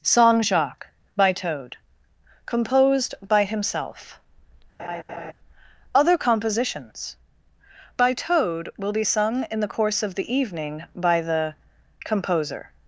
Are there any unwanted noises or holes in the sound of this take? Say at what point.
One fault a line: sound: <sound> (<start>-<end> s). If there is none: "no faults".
sound: laugh (4.8-5.3 s)